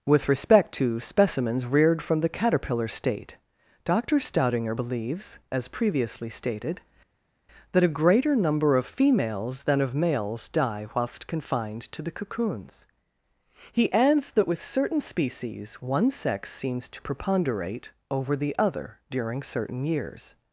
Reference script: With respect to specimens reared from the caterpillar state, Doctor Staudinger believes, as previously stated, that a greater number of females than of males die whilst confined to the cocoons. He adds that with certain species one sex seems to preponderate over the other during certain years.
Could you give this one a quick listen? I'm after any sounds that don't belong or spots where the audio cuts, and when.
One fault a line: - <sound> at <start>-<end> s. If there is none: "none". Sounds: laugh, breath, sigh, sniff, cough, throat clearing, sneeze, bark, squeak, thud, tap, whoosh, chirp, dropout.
none